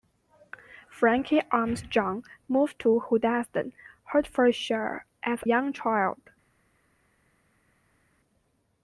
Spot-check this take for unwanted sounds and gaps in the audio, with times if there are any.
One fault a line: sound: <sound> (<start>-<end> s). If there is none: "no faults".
no faults